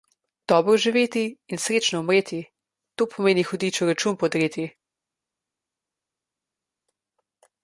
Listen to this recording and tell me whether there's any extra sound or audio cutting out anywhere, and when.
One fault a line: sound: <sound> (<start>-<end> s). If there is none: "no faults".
no faults